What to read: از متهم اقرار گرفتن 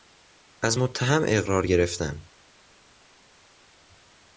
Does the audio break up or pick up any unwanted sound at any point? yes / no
no